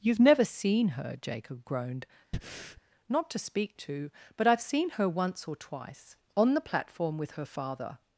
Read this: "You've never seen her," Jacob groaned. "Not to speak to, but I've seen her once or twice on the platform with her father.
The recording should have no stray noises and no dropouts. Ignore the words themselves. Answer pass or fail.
fail